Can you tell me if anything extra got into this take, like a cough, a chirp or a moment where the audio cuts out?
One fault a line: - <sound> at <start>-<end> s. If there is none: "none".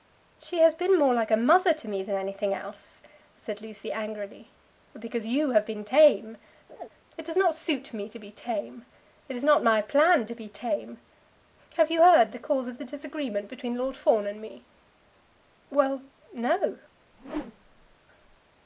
- laugh at 6.7-6.9 s
- whoosh at 17.1-18.0 s